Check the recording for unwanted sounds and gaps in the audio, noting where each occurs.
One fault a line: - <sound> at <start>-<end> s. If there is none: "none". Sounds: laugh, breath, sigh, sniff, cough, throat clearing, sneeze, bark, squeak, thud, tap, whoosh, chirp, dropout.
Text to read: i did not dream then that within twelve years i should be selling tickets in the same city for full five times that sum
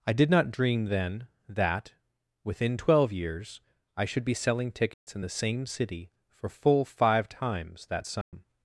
- dropout at 4.9-5.1 s
- dropout at 8.2-8.3 s